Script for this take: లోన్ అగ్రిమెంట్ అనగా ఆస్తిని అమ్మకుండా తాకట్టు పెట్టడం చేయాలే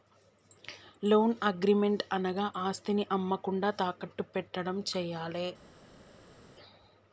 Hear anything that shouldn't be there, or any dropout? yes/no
no